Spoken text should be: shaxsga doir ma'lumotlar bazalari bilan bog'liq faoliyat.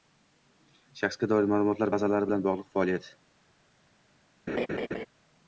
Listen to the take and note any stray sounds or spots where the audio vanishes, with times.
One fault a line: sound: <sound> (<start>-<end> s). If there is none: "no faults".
sound: laugh (4.5-5.1 s)